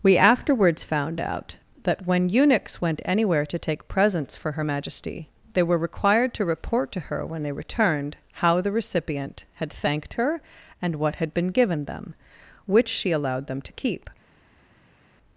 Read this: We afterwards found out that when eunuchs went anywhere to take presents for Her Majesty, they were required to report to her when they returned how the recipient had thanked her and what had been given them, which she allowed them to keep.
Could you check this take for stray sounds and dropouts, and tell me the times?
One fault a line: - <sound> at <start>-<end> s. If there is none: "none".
none